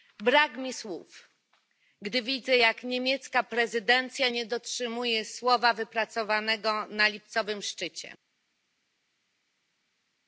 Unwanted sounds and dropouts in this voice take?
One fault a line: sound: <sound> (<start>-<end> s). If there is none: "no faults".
no faults